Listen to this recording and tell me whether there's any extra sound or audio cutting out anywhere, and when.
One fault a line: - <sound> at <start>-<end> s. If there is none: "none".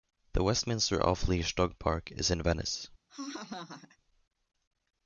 - laugh at 3.1-4.0 s